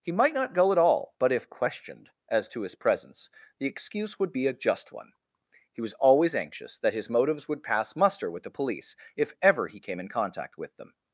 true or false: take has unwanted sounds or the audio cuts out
false